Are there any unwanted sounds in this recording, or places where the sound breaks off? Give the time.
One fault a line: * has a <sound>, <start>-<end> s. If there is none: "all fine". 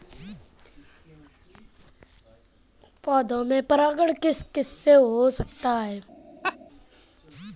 * has a laugh, 6.4-6.6 s